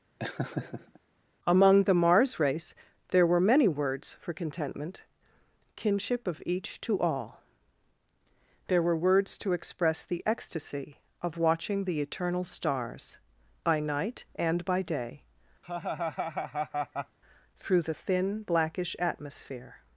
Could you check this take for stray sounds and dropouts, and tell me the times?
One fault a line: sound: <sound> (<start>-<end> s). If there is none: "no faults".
sound: laugh (0.2-1.0 s)
sound: laugh (15.6-17.2 s)